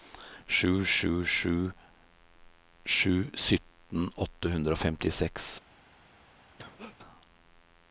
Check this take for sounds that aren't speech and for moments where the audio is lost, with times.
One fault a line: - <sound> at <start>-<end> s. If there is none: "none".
- cough at 6.6-7.0 s